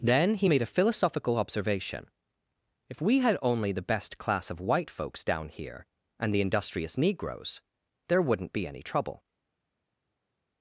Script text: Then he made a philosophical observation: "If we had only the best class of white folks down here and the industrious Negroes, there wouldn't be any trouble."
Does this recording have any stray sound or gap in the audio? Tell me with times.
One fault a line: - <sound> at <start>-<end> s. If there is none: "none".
none